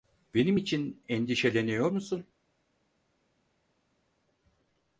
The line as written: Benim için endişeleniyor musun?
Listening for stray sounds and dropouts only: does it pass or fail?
pass